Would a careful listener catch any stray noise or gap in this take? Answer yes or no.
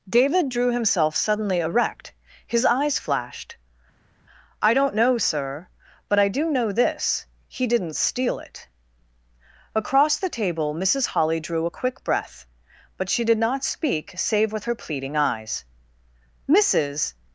no